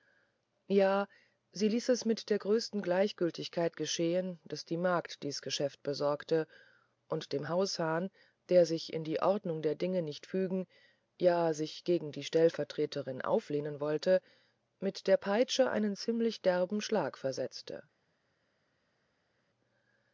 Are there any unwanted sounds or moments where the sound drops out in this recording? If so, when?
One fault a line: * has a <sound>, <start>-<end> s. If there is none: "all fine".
all fine